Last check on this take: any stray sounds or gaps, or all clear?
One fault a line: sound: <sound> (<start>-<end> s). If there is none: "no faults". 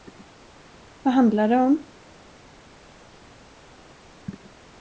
no faults